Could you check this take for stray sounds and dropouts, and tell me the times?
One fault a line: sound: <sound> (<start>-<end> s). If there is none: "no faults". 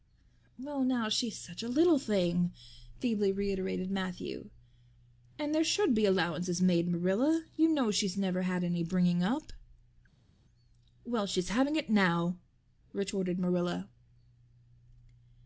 no faults